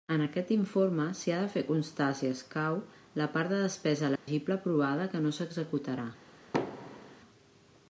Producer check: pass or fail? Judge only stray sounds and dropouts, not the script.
fail